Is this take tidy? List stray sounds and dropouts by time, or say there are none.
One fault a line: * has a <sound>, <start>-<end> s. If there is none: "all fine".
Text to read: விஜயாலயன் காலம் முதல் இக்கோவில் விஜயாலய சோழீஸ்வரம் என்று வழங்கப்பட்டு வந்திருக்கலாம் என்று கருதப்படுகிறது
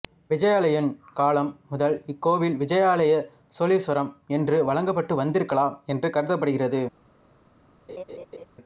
* has a laugh, 7.9-8.5 s